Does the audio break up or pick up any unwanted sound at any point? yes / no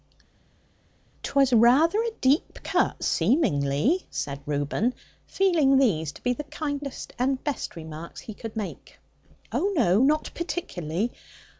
no